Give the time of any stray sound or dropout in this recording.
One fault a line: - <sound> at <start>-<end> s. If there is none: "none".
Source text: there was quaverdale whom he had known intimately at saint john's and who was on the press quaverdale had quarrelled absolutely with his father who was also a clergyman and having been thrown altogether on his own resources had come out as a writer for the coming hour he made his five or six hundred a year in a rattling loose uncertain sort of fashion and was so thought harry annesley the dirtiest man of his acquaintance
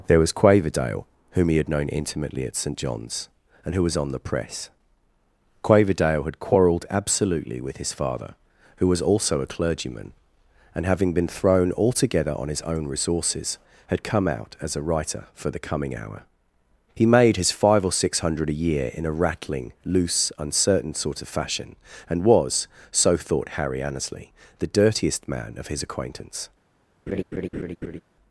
- laugh at 27.1-28.0 s